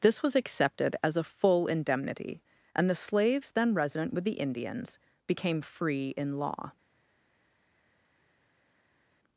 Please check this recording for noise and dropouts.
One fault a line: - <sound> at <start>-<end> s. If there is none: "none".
none